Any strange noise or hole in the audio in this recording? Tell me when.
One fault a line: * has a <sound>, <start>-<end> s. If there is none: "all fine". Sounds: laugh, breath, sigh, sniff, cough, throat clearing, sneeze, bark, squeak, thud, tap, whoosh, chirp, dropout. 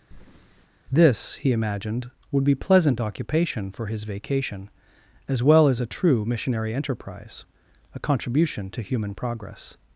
* has a breath, 0.1-0.7 s